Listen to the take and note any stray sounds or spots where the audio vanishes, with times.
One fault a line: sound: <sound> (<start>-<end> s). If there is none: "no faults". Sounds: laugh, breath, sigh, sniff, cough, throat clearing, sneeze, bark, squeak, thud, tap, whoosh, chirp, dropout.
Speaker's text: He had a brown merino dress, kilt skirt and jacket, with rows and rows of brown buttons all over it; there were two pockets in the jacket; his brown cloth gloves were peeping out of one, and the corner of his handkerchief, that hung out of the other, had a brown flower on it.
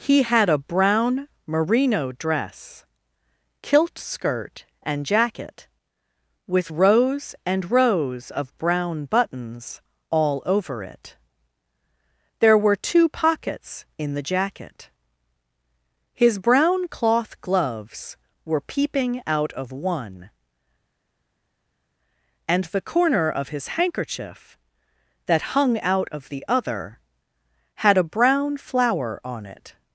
no faults